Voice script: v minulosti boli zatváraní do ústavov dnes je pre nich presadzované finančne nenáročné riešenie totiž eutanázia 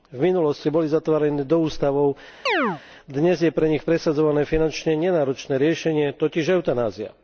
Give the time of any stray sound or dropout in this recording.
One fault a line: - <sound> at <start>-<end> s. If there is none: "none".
- chirp at 2.5-2.8 s